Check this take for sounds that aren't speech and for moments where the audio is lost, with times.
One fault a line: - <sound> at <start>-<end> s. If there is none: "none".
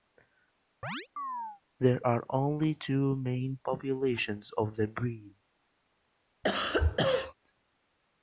- chirp at 0.8-1.6 s
- cough at 6.4-7.3 s